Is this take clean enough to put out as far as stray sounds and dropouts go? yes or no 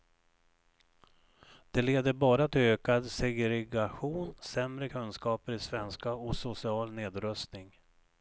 yes